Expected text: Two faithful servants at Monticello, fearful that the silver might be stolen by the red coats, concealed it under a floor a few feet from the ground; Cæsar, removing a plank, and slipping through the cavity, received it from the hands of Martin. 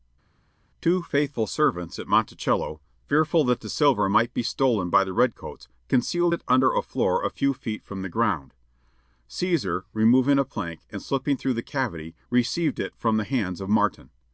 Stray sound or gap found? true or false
false